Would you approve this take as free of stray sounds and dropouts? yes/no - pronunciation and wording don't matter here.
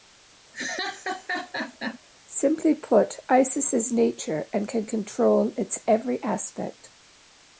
no